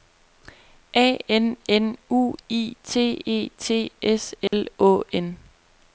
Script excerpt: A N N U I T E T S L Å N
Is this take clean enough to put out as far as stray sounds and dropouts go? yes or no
no